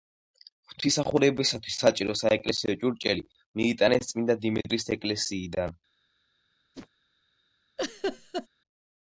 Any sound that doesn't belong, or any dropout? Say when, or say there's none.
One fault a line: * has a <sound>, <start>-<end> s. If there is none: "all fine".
* has a whoosh, 6.7-6.9 s
* has a laugh, 7.8-8.5 s